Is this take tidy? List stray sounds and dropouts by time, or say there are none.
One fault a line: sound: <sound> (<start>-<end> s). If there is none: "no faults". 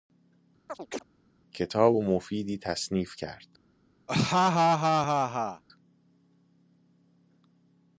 sound: chirp (0.7-1.0 s)
sound: laugh (4.1-5.6 s)